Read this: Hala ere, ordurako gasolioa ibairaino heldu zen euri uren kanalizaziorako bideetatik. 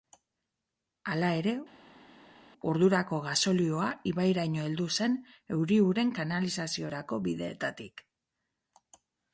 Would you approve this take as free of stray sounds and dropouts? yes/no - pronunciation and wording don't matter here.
yes